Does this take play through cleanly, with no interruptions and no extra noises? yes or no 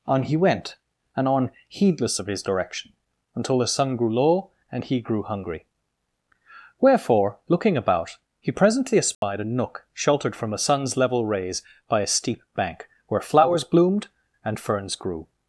no